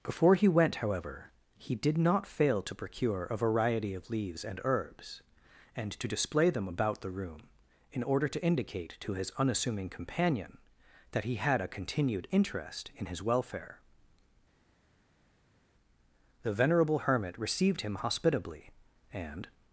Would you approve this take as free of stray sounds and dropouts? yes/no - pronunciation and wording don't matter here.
yes